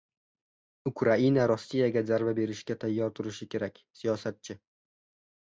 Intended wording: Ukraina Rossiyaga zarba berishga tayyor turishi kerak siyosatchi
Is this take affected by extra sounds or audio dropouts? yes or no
no